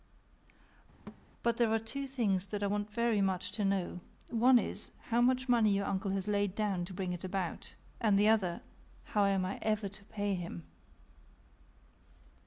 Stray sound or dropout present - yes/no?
yes